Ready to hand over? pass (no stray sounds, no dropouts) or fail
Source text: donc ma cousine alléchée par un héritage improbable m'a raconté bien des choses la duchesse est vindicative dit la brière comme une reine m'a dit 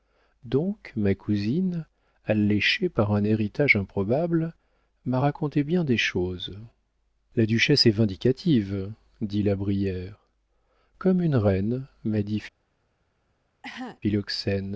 fail